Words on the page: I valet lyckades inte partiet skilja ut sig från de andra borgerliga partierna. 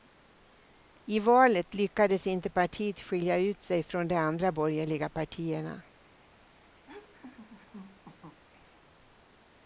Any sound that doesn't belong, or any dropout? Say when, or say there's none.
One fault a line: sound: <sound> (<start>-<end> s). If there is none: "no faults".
sound: laugh (6.9-8.4 s)